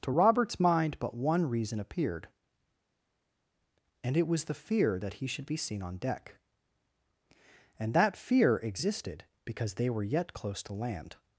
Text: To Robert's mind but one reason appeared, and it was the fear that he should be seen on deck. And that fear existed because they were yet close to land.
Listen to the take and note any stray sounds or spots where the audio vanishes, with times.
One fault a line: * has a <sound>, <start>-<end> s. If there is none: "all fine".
all fine